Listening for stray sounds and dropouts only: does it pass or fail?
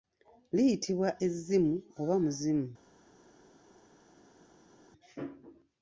pass